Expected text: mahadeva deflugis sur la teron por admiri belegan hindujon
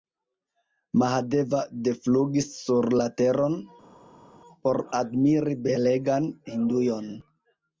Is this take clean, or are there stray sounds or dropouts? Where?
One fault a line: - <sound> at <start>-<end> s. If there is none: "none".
none